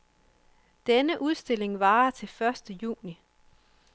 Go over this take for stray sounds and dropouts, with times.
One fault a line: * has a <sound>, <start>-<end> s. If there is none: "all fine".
all fine